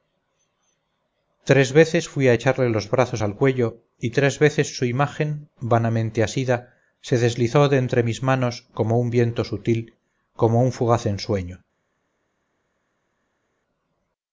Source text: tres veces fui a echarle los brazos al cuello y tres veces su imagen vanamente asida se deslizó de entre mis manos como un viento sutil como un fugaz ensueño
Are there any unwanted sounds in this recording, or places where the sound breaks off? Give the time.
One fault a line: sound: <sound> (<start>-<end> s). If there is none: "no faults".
no faults